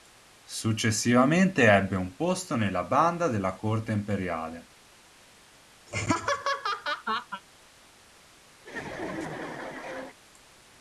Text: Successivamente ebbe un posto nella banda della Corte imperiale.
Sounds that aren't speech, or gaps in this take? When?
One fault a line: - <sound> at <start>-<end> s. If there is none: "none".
- laugh at 5.9-7.4 s
- laugh at 8.6-10.2 s